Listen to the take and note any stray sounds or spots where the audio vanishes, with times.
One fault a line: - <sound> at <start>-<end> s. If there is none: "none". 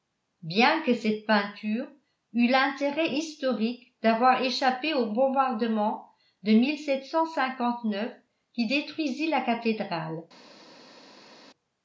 none